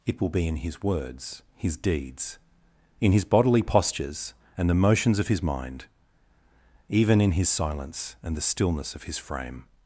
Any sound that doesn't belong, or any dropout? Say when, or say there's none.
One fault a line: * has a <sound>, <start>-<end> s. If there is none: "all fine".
all fine